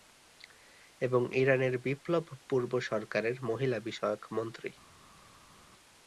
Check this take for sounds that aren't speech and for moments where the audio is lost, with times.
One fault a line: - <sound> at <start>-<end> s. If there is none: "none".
none